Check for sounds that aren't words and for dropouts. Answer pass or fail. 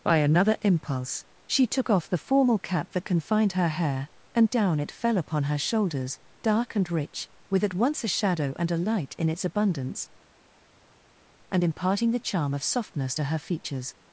pass